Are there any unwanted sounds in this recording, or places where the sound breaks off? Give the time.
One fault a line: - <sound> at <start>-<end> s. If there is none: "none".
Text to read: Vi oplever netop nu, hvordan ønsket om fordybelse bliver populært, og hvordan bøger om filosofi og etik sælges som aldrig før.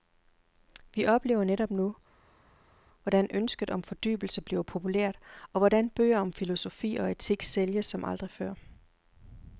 none